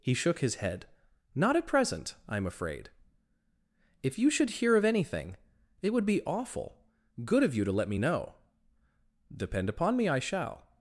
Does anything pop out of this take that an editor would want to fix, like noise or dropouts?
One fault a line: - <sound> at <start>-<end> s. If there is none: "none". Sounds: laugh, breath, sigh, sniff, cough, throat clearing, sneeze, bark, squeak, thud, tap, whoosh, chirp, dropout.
none